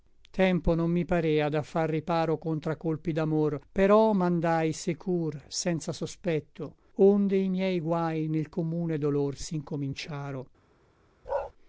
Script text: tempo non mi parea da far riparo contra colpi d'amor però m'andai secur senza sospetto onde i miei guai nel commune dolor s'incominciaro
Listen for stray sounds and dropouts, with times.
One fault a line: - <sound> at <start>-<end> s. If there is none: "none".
- bark at 11.2-11.5 s